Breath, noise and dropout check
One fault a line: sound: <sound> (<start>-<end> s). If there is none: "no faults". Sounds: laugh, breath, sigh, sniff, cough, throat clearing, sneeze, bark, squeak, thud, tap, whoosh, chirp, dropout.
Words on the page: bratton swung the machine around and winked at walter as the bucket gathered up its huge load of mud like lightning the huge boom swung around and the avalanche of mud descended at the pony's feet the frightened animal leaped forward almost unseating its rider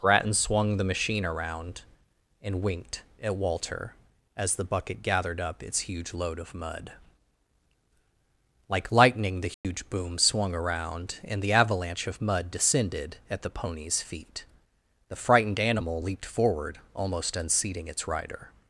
sound: dropout (9.5-9.6 s)